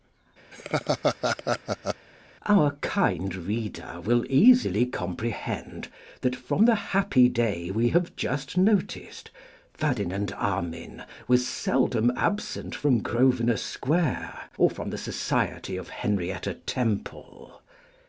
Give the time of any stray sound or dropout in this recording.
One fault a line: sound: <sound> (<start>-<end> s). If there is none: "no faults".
sound: laugh (0.5-2.1 s)